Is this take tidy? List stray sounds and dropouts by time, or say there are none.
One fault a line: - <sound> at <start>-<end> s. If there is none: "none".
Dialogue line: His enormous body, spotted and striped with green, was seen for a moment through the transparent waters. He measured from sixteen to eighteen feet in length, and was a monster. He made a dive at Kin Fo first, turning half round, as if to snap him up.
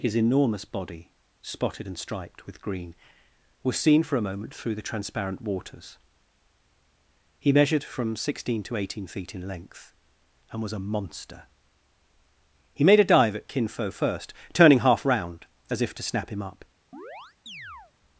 - chirp at 16.9-17.9 s